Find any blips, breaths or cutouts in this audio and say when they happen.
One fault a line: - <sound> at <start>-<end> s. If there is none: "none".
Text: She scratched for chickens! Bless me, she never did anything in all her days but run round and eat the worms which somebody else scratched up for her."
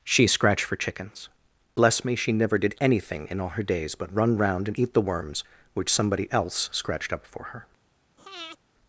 - breath at 8.2-8.6 s